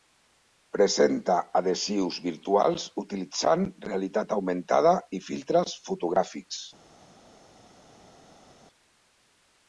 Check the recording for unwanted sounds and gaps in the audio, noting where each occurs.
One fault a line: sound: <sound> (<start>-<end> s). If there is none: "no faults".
no faults